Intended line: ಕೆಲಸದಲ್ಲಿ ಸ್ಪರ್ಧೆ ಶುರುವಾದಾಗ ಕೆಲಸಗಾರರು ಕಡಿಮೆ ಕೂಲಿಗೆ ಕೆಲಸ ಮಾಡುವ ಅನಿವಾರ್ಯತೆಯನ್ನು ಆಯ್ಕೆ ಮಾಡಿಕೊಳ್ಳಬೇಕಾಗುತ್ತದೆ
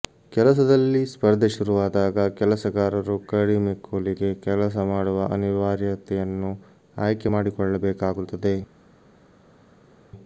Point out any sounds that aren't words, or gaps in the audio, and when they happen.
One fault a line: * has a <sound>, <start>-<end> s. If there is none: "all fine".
all fine